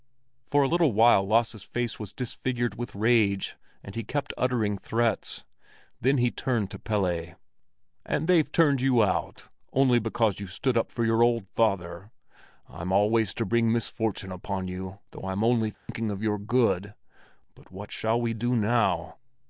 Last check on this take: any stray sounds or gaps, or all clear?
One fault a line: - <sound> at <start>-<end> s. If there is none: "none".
- dropout at 15.7-15.9 s